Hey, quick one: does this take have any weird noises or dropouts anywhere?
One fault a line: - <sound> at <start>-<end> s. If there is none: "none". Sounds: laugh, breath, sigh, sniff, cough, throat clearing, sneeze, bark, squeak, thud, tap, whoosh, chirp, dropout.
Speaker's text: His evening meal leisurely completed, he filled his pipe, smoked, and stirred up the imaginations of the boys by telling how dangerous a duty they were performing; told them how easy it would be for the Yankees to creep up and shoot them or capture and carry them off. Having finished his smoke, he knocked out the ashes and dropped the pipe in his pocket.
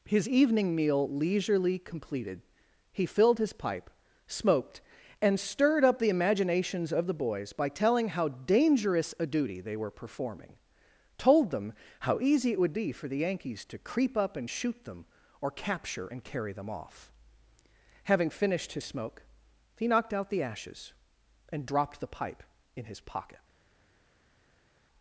none